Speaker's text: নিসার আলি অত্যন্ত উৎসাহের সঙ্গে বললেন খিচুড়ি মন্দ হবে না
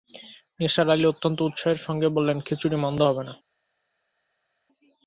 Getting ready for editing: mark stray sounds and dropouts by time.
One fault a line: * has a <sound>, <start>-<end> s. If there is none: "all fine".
all fine